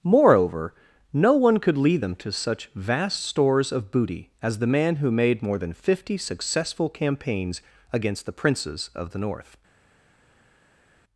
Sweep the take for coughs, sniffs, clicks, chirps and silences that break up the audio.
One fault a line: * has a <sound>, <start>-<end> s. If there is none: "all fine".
all fine